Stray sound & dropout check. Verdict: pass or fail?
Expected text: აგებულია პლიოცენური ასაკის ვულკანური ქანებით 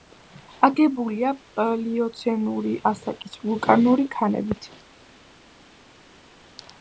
pass